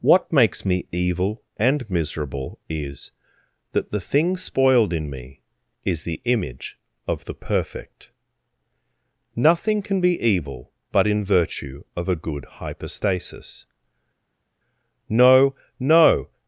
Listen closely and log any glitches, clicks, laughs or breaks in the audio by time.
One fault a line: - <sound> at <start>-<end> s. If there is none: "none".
none